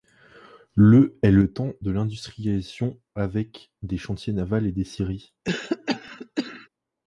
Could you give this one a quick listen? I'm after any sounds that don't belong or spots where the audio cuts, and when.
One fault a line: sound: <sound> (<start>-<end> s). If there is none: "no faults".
sound: cough (5.4-6.7 s)